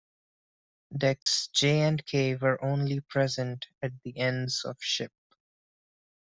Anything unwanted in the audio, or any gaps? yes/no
yes